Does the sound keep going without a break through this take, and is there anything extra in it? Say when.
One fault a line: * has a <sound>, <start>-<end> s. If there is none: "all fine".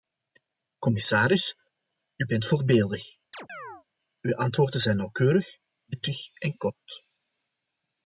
* has a chirp, 3.3-3.8 s